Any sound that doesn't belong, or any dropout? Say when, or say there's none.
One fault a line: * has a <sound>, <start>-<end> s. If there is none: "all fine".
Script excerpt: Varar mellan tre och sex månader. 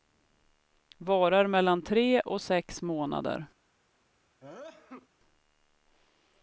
* has a sneeze, 4.4-5.1 s